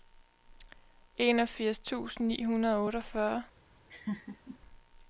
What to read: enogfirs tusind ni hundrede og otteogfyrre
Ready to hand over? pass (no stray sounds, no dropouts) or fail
fail